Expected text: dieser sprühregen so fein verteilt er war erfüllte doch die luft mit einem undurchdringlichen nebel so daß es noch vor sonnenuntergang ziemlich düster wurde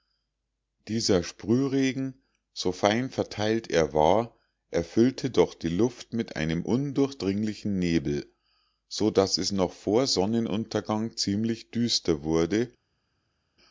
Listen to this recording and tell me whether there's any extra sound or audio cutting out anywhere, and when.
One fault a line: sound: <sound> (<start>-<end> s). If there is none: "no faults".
no faults